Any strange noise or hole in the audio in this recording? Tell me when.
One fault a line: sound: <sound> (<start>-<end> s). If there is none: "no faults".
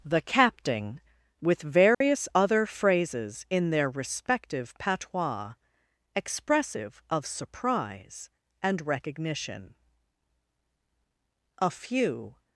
sound: dropout (1.9-2.0 s)